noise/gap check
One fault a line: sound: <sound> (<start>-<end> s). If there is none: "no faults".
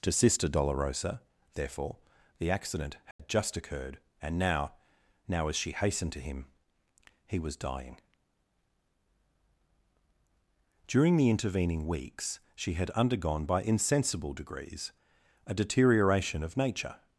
sound: dropout (3.1-3.2 s)